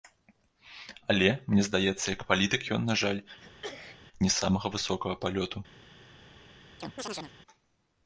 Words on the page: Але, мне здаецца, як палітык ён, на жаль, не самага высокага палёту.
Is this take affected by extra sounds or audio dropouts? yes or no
yes